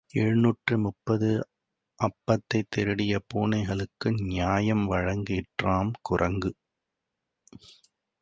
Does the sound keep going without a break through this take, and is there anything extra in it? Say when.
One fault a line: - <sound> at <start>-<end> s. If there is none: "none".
none